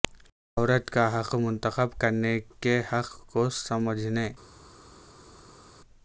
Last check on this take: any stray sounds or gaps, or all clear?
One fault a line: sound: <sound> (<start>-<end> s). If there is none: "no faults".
no faults